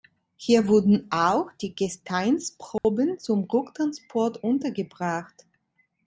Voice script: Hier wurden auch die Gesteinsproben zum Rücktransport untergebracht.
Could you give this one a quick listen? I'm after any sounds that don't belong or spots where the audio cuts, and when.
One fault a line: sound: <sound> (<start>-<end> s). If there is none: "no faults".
sound: dropout (2.8-2.8 s)